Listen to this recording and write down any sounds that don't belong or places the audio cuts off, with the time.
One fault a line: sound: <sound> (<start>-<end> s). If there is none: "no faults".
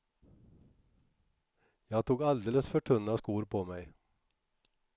no faults